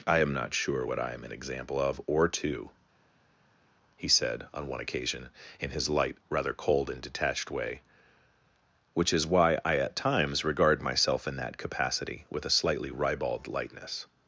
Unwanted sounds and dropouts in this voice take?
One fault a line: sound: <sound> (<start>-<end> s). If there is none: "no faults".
no faults